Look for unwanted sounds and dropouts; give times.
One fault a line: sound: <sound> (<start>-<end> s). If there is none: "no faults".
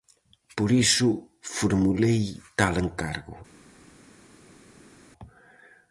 no faults